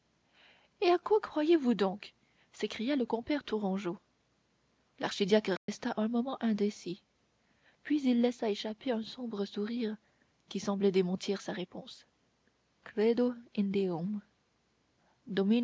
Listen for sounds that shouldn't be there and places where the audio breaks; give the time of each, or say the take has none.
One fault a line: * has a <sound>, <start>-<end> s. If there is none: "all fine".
* has a dropout, 5.6-5.7 s